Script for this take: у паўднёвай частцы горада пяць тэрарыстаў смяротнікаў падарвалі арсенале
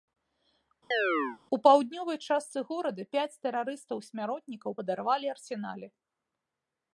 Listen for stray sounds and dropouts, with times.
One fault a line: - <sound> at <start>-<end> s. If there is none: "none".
- chirp at 0.9-1.4 s